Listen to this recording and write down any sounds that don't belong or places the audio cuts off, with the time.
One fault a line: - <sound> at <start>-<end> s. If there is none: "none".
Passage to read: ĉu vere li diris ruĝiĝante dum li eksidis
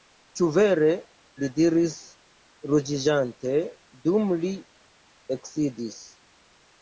none